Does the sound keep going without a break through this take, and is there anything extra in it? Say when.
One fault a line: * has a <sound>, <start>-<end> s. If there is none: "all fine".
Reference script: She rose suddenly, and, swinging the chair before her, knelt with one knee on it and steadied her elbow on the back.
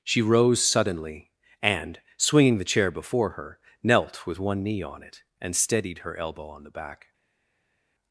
all fine